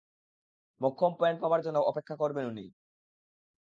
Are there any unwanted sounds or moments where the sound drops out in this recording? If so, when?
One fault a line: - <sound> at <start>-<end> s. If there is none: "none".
none